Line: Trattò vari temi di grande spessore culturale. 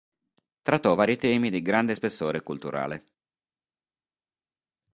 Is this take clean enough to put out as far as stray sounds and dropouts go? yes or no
yes